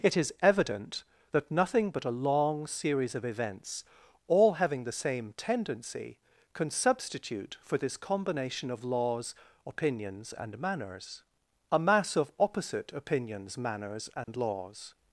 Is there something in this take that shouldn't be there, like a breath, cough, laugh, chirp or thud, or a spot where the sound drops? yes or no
yes